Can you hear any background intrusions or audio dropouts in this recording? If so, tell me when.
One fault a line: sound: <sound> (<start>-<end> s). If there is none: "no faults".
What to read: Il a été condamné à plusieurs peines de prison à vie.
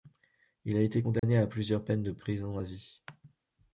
sound: dropout (1.2-1.2 s)